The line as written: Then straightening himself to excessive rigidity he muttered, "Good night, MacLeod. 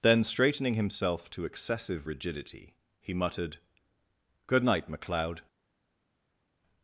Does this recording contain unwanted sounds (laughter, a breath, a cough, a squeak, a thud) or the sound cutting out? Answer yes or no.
no